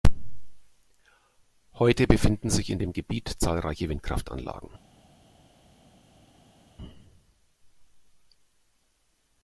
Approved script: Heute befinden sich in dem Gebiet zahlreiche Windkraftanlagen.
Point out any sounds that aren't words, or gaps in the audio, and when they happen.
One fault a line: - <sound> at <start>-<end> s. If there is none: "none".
none